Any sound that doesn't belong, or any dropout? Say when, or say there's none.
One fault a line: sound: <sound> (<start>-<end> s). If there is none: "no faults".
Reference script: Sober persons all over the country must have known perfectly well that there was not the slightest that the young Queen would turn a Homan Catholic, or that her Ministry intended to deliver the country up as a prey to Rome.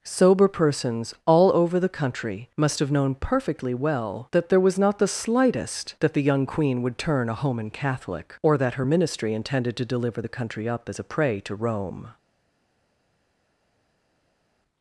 no faults